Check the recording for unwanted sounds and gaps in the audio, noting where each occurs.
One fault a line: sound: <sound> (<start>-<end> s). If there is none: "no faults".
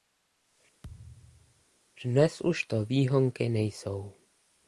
sound: thud (0.8-1.7 s)